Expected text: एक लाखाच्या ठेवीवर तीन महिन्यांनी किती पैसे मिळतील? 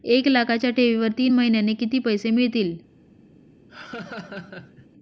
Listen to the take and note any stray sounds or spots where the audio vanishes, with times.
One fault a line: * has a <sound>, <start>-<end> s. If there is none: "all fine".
* has a laugh, 3.7-4.9 s